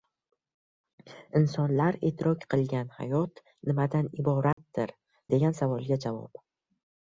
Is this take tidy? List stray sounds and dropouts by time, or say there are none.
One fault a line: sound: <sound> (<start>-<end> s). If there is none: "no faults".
sound: dropout (4.5-4.6 s)